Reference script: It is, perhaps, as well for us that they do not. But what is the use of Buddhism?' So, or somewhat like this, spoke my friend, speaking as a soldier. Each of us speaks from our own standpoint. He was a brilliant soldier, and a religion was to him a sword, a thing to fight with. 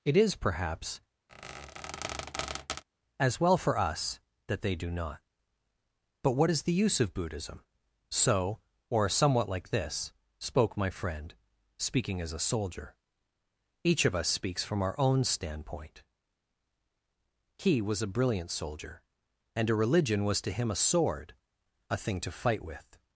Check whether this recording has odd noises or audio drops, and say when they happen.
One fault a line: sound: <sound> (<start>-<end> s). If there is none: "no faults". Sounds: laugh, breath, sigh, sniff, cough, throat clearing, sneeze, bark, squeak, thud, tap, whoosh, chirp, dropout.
sound: squeak (1.3-2.8 s)